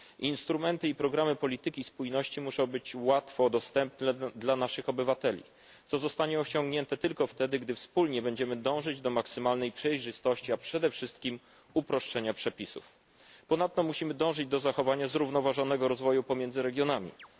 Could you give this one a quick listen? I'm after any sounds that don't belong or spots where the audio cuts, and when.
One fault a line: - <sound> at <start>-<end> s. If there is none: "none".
- chirp at 17.2-17.3 s